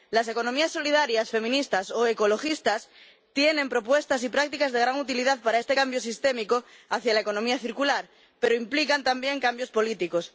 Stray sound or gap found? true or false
false